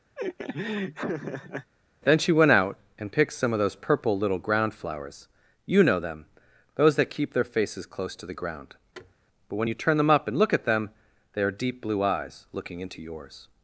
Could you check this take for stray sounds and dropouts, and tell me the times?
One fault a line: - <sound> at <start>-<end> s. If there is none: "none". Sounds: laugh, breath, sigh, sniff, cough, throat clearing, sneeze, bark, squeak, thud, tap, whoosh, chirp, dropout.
- laugh at 0.2-1.7 s
- thud at 8.9-9.1 s